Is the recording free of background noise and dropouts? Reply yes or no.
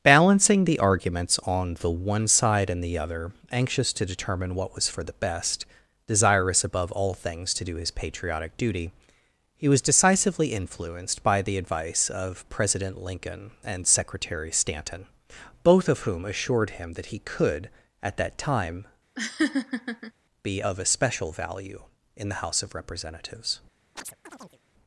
no